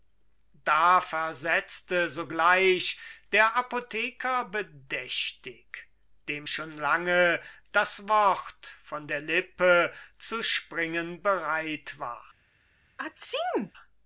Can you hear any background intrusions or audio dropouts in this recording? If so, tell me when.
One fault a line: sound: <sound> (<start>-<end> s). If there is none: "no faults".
sound: sneeze (13.0-13.7 s)